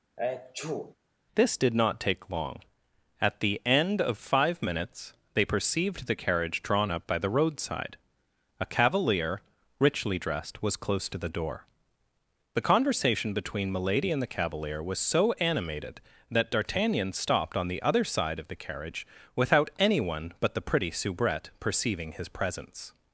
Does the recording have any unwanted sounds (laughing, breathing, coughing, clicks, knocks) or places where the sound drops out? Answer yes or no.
yes